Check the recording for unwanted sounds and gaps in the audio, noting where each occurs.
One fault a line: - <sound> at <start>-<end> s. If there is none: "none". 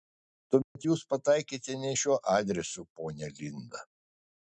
- dropout at 0.6-0.8 s